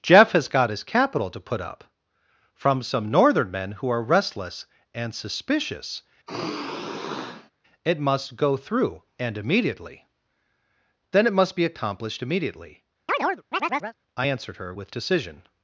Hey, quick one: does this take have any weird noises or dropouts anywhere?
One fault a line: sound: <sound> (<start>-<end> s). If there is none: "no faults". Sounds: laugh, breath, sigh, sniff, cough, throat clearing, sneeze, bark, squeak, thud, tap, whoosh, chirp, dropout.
sound: sigh (6.3-7.5 s)
sound: chirp (13.1-14.0 s)